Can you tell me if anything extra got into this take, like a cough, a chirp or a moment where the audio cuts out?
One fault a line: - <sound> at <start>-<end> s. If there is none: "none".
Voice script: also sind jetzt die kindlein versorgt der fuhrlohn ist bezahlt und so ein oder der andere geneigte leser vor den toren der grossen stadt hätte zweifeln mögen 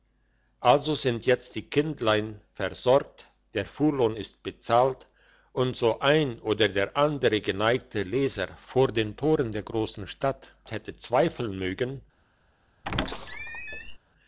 - squeak at 12.8-14.0 s